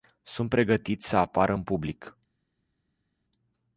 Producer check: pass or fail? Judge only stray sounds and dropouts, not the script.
pass